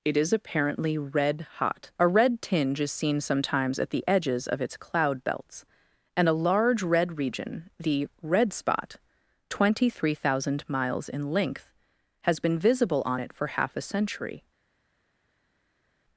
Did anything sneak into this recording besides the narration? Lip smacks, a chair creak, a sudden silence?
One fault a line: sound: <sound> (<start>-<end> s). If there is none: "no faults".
no faults